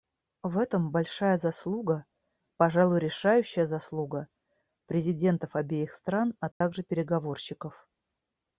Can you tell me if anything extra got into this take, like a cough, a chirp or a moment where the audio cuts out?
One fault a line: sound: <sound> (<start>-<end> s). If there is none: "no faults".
sound: dropout (6.5-6.6 s)